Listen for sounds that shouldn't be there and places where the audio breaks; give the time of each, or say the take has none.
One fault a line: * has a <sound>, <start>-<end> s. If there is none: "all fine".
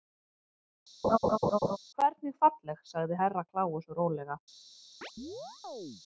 * has a laugh, 1.0-1.8 s
* has a chirp, 5.0-6.0 s